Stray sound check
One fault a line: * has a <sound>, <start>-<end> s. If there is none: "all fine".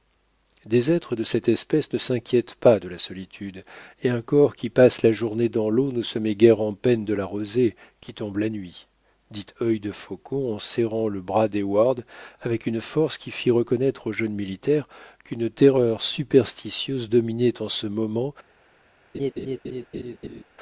* has a laugh, 19.1-20.4 s